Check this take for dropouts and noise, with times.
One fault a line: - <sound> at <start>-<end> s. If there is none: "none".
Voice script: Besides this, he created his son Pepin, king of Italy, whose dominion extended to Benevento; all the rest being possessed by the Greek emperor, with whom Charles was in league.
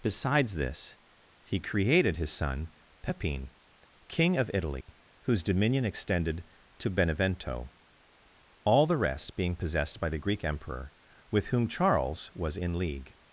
- dropout at 4.8-4.9 s